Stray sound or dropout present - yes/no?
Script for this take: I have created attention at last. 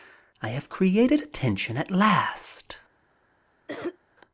yes